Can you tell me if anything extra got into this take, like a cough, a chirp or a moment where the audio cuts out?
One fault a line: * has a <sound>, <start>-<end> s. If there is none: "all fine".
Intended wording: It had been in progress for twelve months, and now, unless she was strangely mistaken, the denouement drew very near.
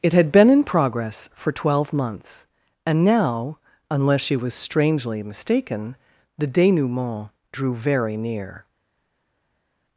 all fine